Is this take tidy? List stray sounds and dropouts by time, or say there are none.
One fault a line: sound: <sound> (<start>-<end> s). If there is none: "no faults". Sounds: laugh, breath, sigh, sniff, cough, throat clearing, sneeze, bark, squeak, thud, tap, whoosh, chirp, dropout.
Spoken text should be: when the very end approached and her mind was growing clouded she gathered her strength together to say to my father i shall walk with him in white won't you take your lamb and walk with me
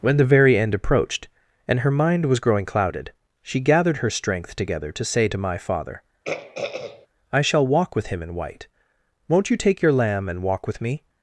sound: throat clearing (6.2-7.1 s)